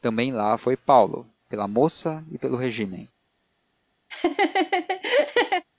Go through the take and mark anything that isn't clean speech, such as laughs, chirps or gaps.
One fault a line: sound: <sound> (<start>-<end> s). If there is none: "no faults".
sound: laugh (4.1-5.7 s)